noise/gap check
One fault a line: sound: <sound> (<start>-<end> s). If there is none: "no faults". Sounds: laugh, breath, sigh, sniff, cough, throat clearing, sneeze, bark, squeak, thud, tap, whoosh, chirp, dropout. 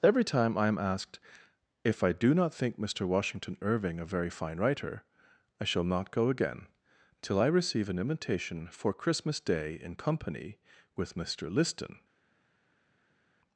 no faults